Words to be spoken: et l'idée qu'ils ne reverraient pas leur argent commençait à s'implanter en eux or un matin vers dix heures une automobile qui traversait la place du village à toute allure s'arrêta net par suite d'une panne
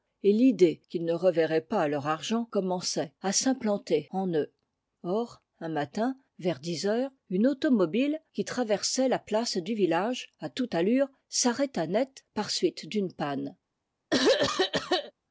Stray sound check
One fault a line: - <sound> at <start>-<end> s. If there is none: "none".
- throat clearing at 14.1-15.1 s